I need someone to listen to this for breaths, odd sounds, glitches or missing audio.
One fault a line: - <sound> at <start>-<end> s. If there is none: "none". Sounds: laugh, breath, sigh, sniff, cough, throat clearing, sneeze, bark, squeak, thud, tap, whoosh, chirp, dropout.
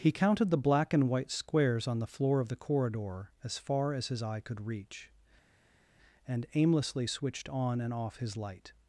none